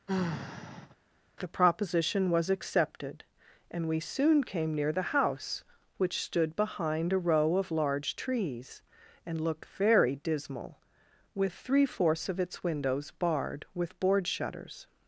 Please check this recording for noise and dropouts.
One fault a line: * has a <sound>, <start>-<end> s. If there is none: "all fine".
* has a sigh, 0.1-1.0 s